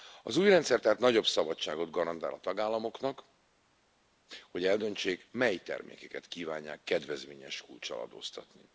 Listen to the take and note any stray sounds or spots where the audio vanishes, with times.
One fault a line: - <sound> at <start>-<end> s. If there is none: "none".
none